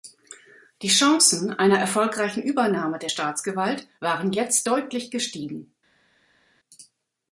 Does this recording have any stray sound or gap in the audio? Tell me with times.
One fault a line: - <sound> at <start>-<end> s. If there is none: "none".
none